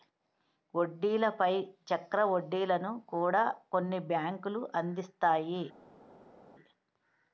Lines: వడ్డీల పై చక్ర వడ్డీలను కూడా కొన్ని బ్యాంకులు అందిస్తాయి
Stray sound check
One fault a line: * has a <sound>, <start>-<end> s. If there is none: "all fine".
all fine